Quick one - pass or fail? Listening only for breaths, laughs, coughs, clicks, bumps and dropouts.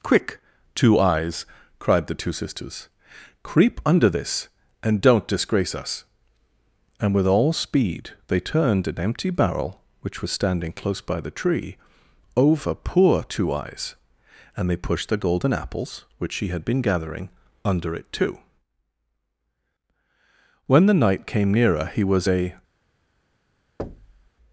fail